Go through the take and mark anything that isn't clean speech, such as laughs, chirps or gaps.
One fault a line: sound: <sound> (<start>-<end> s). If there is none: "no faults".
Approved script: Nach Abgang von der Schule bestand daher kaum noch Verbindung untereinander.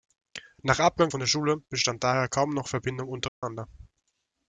sound: dropout (3.3-3.4 s)